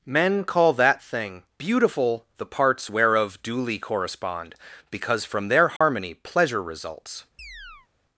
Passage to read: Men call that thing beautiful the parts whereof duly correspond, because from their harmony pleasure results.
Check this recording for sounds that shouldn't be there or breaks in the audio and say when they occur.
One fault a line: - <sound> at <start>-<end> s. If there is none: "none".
- dropout at 5.8-5.8 s
- chirp at 7.4-7.9 s